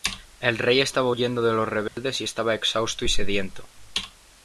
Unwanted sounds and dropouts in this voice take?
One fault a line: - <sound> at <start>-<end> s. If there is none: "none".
- dropout at 1.9-2.0 s